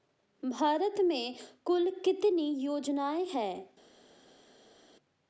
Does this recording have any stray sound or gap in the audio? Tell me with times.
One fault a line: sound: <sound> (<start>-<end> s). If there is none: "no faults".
no faults